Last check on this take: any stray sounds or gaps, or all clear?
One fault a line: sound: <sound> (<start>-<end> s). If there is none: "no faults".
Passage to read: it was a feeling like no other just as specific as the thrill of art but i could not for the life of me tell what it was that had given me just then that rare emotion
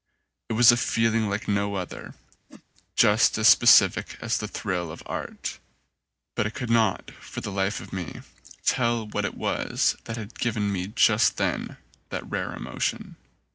sound: whoosh (2.5-2.6 s)